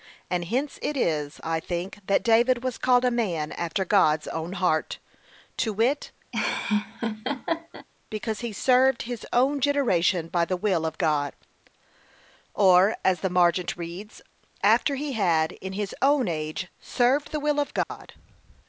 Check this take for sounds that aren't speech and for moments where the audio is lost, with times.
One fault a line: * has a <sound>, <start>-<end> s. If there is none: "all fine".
* has a laugh, 6.3-7.9 s
* has a dropout, 17.8-17.9 s